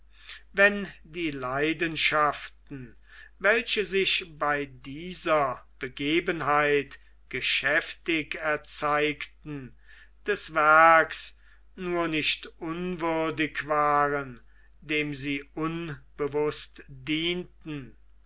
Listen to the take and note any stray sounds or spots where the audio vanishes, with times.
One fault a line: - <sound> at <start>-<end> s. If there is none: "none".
none